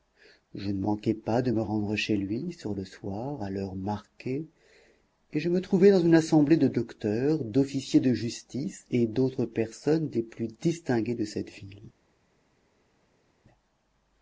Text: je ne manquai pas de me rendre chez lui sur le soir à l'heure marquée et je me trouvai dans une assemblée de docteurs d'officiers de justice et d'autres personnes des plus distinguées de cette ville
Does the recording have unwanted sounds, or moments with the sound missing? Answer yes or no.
no